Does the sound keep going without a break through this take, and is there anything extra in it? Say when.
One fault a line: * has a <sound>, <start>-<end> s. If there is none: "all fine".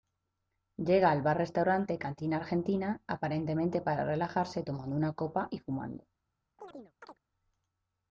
* has a chirp, 6.6-7.2 s